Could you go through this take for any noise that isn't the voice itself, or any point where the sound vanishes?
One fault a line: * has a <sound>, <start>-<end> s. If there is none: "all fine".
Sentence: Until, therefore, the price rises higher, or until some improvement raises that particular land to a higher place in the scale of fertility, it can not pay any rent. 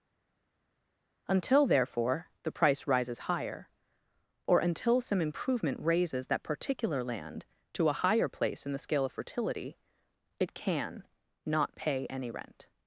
all fine